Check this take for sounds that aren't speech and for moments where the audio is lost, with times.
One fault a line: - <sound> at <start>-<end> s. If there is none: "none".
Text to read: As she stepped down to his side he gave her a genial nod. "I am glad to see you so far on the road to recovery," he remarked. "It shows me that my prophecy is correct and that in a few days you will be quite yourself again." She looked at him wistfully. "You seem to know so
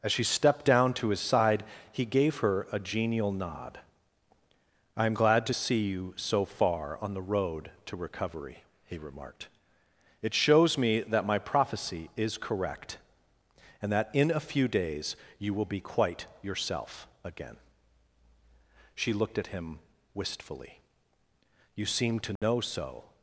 - dropout at 22.4-22.4 s